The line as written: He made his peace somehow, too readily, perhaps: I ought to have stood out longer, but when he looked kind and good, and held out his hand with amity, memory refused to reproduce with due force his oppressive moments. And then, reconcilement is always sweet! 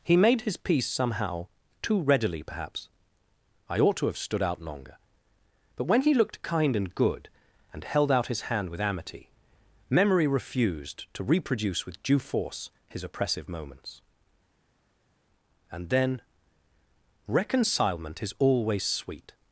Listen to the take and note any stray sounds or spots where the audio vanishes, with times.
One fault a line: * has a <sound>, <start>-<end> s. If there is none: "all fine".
all fine